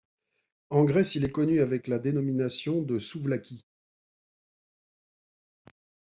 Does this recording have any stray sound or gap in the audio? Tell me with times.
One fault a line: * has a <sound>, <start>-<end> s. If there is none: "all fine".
all fine